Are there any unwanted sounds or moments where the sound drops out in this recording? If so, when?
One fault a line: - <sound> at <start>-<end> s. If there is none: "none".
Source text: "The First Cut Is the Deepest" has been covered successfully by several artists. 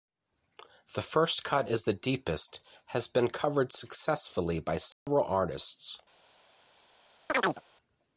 - dropout at 4.9-5.1 s
- chirp at 7.3-7.6 s